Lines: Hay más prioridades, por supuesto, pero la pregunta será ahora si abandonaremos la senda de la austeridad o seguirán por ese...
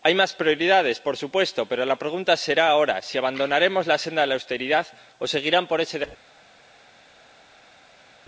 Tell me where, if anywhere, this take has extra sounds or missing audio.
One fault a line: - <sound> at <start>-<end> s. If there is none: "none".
none